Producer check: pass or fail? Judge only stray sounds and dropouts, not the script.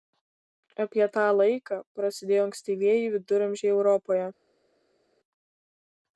pass